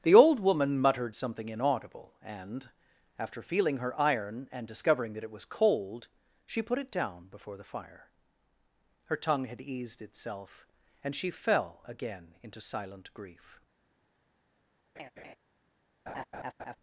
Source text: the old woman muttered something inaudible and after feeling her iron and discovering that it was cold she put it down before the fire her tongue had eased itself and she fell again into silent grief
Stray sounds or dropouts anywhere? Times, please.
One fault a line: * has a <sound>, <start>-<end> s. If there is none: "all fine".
* has a laugh, 15.0-15.4 s
* has a laugh, 16.1-16.8 s